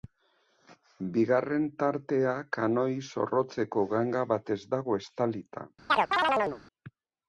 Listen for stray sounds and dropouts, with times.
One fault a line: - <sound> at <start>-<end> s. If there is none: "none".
- chirp at 5.9-6.6 s